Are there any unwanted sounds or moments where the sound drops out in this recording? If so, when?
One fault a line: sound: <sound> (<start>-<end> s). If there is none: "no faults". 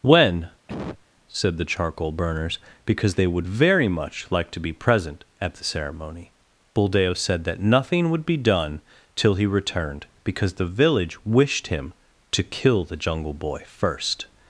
sound: cough (0.7-1.1 s)